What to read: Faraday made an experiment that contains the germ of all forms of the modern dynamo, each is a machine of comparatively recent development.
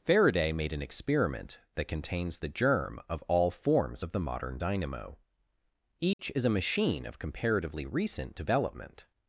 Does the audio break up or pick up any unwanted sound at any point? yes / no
yes